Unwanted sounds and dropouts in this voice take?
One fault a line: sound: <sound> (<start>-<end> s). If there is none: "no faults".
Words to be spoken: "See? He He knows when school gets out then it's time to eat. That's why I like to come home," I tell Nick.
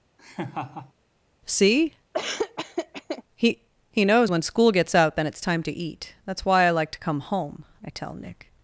sound: laugh (0.2-0.9 s)
sound: laugh (2.1-3.2 s)